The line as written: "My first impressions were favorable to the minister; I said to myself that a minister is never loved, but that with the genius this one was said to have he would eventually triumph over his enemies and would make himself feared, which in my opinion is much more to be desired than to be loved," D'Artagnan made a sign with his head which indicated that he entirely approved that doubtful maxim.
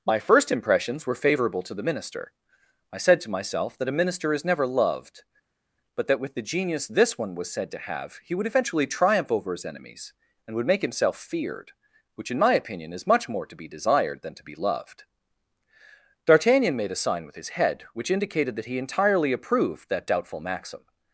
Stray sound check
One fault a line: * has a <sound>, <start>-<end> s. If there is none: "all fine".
all fine